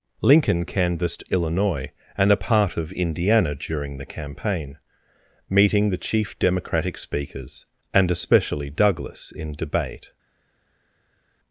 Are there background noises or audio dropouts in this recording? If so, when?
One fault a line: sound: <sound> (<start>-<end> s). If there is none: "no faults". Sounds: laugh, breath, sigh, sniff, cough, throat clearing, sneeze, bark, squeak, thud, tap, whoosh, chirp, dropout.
no faults